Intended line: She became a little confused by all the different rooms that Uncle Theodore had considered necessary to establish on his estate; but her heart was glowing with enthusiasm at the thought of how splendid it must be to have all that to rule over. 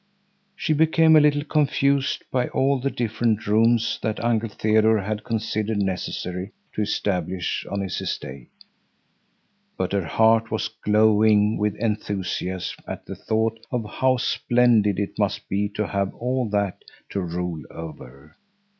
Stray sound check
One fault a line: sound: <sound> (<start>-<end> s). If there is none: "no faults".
no faults